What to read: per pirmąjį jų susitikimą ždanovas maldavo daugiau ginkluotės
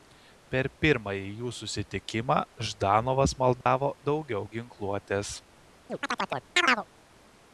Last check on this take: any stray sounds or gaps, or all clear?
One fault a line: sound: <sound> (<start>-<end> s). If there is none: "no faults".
sound: dropout (3.6-3.7 s)
sound: chirp (5.9-6.9 s)